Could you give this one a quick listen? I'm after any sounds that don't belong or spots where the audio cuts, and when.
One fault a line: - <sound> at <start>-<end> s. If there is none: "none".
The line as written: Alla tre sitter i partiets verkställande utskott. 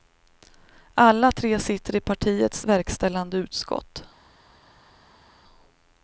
none